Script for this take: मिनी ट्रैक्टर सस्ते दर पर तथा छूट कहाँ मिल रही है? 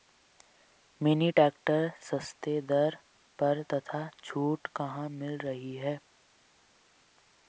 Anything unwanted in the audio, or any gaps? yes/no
no